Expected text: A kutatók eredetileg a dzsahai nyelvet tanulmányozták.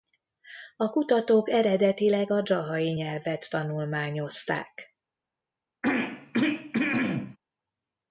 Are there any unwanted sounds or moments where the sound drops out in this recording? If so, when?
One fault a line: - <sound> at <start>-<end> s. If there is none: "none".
- throat clearing at 5.8-7.4 s